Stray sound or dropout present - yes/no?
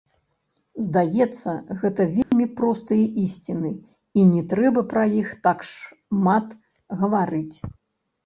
yes